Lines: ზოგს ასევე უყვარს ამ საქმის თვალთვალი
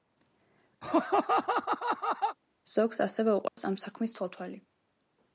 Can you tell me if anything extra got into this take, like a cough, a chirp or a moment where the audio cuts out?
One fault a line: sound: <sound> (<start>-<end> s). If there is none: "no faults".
sound: laugh (0.8-2.4 s)
sound: dropout (3.5-3.6 s)